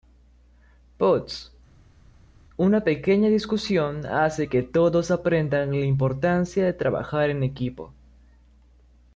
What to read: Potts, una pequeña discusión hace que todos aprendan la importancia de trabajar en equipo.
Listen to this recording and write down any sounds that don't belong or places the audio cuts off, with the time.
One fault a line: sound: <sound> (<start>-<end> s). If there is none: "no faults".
no faults